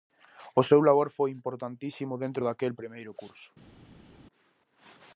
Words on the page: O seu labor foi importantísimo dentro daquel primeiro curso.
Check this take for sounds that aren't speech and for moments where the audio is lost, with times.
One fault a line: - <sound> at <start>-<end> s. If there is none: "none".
none